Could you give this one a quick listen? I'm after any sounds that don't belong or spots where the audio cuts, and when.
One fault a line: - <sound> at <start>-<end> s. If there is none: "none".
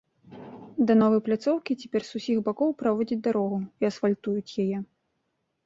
none